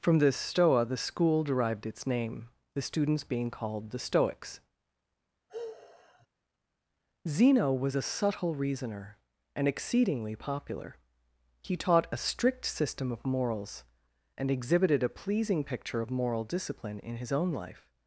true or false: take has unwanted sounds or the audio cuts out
true